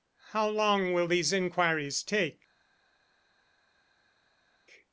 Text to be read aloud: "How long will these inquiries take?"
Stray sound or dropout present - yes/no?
no